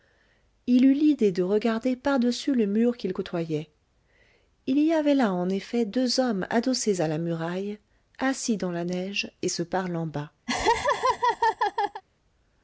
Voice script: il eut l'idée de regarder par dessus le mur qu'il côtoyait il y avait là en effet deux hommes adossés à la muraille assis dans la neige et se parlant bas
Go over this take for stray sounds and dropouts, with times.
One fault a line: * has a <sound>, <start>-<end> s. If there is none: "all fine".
* has a laugh, 10.5-12.0 s